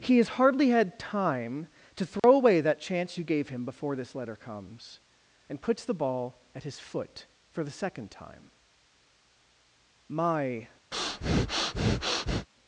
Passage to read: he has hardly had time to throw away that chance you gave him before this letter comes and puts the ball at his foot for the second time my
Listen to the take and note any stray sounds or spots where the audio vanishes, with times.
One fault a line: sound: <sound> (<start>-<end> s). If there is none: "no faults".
sound: dropout (2.2-2.2 s)
sound: breath (10.9-12.5 s)